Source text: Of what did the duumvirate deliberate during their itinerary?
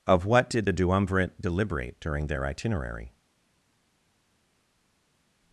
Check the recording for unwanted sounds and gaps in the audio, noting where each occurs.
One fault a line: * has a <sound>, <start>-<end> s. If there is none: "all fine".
all fine